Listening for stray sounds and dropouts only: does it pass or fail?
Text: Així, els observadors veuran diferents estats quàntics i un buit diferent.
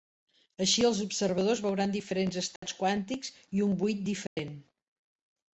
fail